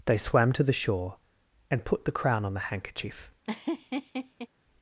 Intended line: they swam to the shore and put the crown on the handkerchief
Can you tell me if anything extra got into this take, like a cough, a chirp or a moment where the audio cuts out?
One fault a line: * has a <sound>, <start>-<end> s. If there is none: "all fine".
* has a laugh, 3.4-4.5 s